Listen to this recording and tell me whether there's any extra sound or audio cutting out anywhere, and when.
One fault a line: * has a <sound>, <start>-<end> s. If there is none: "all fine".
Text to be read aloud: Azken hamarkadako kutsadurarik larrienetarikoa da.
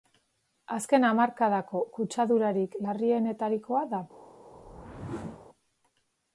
* has a whoosh, 4.5-5.5 s